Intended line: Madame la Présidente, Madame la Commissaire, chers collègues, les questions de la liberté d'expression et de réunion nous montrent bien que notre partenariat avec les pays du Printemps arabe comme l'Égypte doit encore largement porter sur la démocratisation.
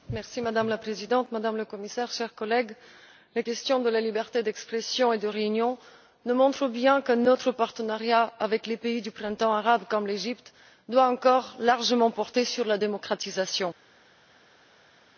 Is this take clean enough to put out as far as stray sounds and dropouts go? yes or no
yes